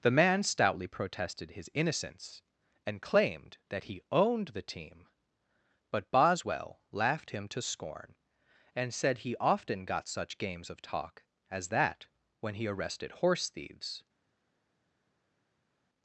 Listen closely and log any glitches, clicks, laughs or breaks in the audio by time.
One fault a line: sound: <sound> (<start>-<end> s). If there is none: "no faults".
no faults